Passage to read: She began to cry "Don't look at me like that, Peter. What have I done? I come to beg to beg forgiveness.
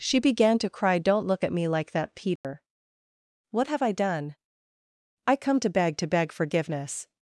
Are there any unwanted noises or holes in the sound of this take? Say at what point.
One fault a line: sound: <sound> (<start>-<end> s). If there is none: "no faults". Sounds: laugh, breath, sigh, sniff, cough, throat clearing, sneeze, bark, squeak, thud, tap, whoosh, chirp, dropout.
sound: dropout (2.4-2.4 s)